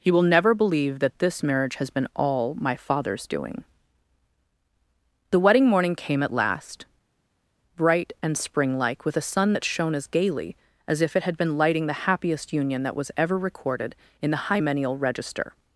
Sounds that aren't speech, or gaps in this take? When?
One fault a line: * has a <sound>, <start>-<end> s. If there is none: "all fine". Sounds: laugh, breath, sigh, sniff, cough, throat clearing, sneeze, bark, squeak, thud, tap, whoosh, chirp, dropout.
all fine